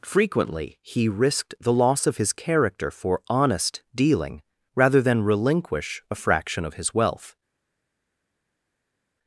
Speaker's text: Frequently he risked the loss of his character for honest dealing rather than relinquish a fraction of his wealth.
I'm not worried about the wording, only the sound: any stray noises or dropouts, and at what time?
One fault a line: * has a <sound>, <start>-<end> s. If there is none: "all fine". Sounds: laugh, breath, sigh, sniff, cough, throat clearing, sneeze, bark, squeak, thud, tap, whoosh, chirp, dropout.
all fine